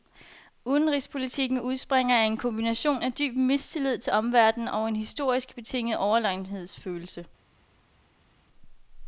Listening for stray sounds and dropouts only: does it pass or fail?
pass